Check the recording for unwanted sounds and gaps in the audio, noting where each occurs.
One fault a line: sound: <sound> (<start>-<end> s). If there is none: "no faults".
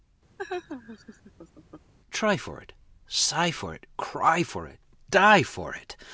sound: laugh (0.4-1.9 s)